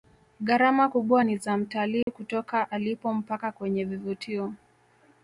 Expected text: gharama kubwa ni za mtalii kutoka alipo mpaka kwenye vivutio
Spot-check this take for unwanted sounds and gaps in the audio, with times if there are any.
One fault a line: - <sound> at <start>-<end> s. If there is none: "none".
- dropout at 2.0-2.1 s